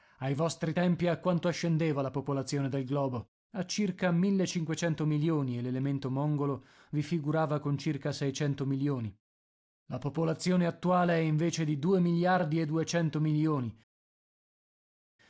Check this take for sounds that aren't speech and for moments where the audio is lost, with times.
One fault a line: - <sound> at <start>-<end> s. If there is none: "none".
none